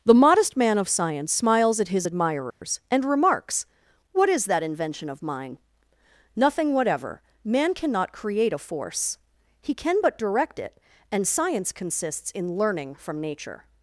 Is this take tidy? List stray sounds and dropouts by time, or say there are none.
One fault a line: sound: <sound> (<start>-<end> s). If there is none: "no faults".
sound: dropout (2.5-2.6 s)